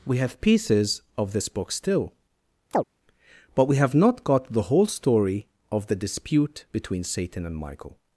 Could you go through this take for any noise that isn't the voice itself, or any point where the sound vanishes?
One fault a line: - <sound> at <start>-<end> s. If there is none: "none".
- chirp at 2.7-2.8 s